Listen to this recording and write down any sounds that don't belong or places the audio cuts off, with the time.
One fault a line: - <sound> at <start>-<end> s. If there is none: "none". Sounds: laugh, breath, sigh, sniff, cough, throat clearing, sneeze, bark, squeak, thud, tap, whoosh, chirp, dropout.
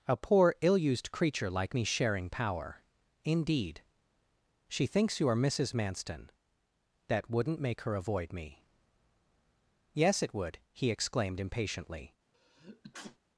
- sneeze at 12.3-13.2 s